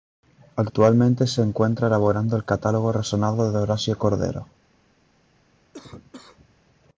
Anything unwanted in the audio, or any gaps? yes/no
yes